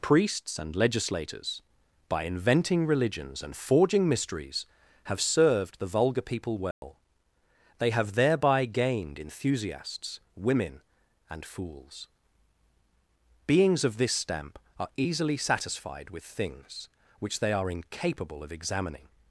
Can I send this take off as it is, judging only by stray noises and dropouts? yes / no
no